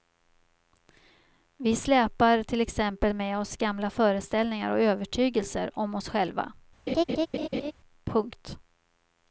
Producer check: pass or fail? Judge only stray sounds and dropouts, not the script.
fail